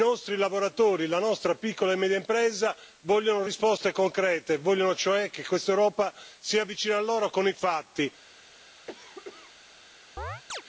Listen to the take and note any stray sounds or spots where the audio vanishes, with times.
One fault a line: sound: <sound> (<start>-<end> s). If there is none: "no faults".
sound: cough (8.9-9.6 s)
sound: chirp (10.2-10.6 s)